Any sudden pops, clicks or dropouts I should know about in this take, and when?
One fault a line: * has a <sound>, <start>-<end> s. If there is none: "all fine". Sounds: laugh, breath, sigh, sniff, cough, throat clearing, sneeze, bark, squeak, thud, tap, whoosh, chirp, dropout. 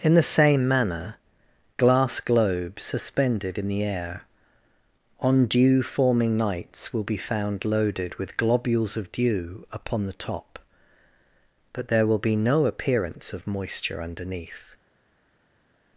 all fine